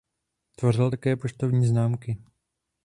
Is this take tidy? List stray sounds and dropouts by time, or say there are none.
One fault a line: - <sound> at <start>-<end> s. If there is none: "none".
none